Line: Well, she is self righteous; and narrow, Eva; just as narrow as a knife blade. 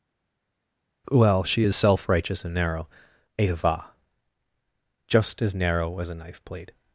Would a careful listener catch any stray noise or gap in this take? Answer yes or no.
no